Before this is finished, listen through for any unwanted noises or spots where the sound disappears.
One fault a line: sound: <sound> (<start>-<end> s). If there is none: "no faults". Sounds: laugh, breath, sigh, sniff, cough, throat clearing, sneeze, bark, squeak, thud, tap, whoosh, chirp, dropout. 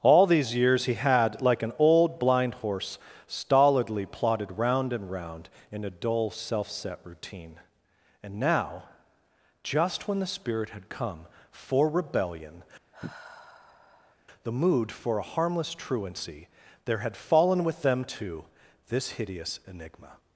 sound: sigh (12.9-14.2 s)